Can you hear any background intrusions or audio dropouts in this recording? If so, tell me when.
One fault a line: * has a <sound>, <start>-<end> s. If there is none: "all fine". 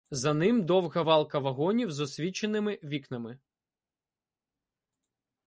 all fine